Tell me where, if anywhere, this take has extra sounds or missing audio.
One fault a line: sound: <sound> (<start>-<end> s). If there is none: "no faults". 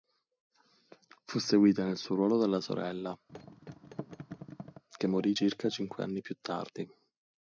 sound: thud (3.3-4.8 s)